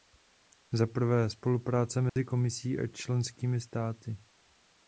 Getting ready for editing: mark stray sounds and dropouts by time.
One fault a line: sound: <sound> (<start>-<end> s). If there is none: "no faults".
sound: dropout (2.1-2.2 s)